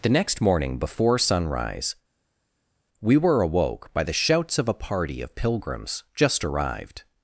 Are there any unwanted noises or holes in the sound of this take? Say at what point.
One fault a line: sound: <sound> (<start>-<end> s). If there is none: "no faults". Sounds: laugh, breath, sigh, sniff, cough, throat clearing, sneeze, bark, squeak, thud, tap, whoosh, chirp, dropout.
no faults